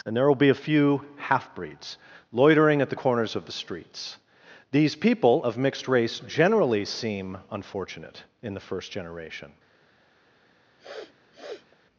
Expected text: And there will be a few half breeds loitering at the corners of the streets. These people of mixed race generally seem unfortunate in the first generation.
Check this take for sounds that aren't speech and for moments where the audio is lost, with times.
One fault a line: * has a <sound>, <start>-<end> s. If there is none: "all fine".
* has a sniff, 10.8-11.8 s